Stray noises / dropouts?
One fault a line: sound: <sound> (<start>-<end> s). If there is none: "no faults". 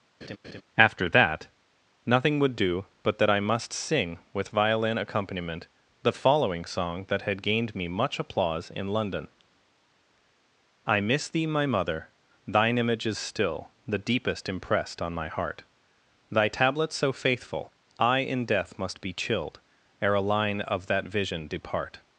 sound: laugh (0.2-0.6 s)